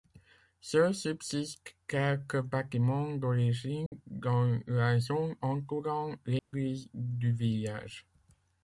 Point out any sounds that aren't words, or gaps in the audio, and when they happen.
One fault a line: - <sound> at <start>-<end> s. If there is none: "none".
- dropout at 3.9-3.9 s
- dropout at 6.4-6.5 s